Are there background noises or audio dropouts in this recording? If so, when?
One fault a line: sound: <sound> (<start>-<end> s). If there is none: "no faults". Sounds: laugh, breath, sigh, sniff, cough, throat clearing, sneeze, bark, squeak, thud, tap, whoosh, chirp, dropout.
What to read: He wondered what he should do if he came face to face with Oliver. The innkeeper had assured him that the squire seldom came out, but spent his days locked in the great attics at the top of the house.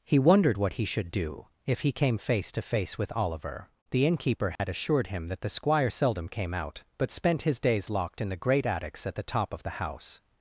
sound: dropout (4.6-4.6 s)